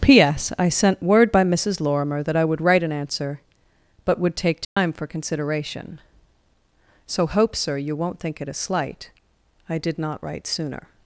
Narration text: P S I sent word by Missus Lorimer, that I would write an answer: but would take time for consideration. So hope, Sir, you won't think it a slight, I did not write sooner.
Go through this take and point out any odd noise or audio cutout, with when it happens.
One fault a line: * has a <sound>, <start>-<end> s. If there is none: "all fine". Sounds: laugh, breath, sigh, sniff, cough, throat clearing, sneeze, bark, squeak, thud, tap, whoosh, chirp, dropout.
* has a dropout, 4.6-4.8 s